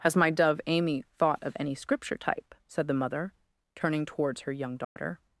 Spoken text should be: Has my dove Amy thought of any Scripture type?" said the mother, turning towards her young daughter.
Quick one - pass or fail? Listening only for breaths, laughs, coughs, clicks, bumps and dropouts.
fail